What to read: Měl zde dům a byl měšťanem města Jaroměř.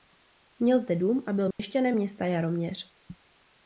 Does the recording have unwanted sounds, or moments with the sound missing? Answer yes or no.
yes